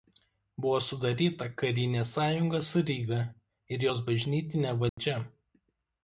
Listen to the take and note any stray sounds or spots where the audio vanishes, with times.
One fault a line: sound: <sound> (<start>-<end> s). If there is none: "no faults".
sound: dropout (4.9-5.0 s)